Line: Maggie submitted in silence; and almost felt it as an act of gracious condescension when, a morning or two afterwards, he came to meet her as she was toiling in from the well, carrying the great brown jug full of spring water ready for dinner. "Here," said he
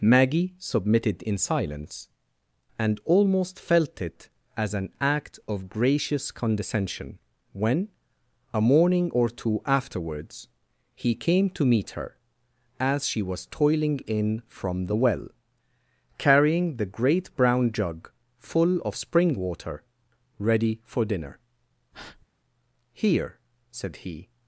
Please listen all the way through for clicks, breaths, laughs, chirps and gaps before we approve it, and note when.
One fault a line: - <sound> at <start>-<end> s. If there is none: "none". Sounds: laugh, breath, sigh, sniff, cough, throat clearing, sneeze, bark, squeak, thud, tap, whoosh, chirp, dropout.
- breath at 21.9-22.3 s